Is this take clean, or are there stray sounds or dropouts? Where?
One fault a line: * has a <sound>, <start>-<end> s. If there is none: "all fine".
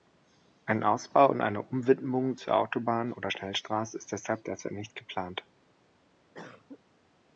* has a cough, 6.3-6.8 s